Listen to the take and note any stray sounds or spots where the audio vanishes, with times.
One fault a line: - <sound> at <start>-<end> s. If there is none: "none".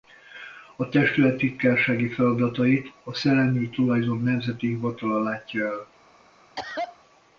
- cough at 6.6-7.0 s